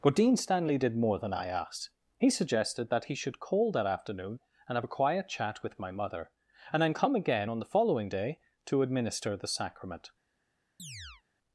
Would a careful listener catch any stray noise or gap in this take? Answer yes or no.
yes